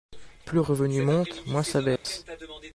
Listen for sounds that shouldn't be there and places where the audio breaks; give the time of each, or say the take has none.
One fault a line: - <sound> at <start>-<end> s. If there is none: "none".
- dropout at 2.0-2.1 s